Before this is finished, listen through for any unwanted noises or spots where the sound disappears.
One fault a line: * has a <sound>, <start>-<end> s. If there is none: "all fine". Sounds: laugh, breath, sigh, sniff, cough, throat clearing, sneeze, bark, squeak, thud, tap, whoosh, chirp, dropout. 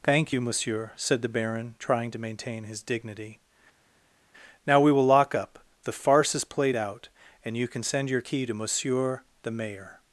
all fine